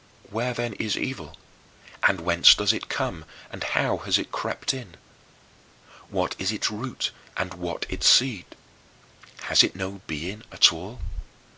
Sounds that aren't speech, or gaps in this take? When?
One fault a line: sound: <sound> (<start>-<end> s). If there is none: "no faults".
no faults